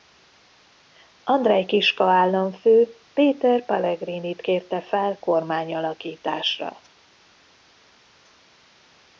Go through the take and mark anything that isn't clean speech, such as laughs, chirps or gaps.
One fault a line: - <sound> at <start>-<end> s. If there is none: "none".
none